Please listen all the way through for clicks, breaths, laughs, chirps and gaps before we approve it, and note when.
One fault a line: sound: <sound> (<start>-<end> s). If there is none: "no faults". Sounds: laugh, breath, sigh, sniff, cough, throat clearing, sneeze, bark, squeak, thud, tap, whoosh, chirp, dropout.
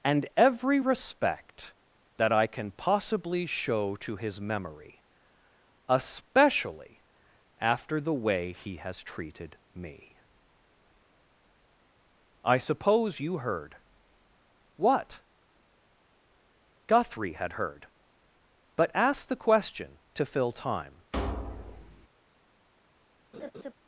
sound: thud (21.1-22.1 s)
sound: laugh (23.3-23.7 s)